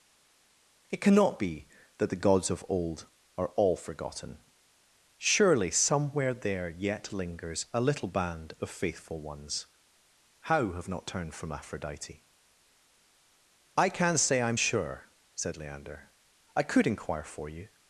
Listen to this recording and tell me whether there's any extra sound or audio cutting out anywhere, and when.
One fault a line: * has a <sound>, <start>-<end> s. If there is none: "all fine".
all fine